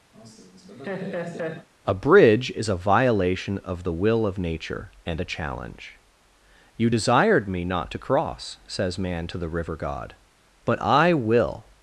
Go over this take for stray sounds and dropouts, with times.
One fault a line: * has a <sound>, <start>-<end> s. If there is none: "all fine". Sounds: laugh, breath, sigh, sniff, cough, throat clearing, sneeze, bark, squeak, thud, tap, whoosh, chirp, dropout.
* has a laugh, 0.1-1.7 s